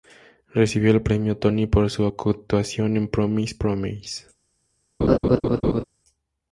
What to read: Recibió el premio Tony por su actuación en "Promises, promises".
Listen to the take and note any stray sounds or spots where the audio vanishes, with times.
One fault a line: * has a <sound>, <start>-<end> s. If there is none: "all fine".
* has a laugh, 5.0-5.8 s